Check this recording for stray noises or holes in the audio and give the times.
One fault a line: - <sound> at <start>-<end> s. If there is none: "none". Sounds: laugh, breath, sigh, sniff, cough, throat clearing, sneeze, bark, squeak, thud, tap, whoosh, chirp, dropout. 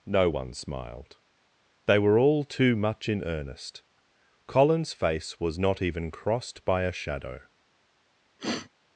- sniff at 8.4-8.7 s